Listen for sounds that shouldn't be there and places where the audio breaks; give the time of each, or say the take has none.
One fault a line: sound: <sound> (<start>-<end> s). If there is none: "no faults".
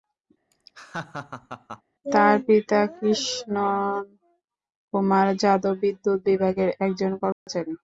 sound: laugh (0.5-1.8 s)
sound: dropout (7.3-7.5 s)